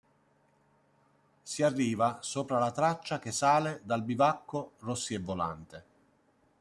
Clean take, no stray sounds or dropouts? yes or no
yes